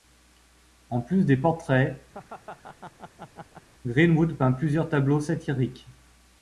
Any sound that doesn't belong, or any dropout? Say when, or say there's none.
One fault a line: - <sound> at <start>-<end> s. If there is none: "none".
- laugh at 2.1-3.7 s